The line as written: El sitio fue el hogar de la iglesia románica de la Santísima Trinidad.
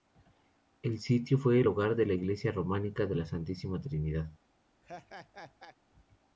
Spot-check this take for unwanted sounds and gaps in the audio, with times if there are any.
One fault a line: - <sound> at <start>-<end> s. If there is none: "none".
- laugh at 4.8-5.8 s